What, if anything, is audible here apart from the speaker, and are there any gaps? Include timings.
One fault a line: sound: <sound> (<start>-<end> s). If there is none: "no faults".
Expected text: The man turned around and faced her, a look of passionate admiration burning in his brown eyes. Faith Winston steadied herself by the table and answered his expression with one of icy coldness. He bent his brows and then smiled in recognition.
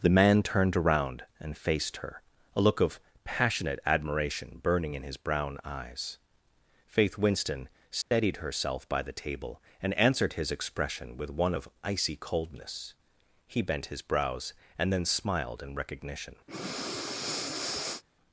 sound: dropout (8.0-8.1 s)
sound: breath (16.5-18.0 s)